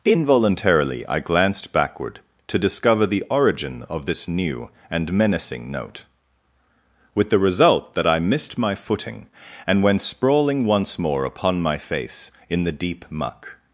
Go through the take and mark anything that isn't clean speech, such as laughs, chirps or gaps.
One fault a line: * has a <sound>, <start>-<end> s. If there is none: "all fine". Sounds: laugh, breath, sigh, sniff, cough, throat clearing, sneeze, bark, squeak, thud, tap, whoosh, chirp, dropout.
all fine